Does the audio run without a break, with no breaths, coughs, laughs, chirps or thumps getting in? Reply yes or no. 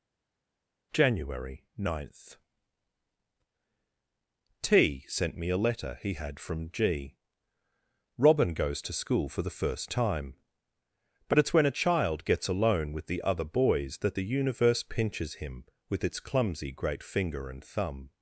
yes